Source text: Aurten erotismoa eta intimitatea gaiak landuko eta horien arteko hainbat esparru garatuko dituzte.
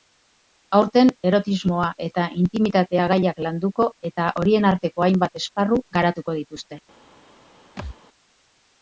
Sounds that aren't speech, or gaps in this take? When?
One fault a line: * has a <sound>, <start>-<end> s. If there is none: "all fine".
* has a thud, 7.8-8.0 s